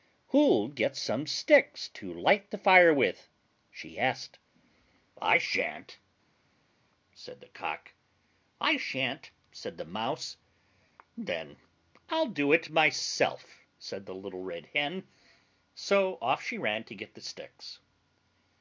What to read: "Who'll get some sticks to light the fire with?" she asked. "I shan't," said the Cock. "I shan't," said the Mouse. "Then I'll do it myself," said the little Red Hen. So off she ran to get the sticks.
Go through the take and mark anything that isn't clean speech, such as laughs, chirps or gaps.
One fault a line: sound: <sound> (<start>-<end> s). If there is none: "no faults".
no faults